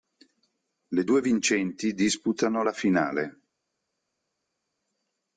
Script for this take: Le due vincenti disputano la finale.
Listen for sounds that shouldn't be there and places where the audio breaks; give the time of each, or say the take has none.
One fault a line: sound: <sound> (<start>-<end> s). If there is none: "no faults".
no faults